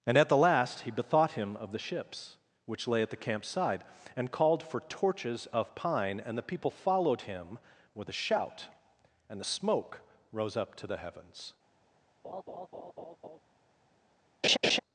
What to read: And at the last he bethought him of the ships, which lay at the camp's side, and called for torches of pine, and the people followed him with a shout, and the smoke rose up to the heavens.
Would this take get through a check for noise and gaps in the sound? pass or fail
fail